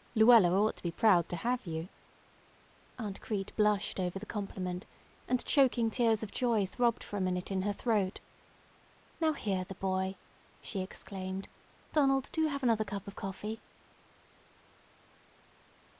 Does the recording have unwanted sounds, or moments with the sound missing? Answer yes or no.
no